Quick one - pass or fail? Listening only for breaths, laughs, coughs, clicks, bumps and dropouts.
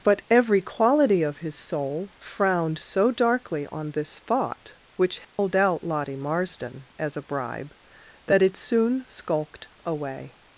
fail